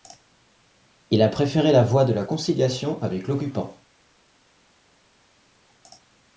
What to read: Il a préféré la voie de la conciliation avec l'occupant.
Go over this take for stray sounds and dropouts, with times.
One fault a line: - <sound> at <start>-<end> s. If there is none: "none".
none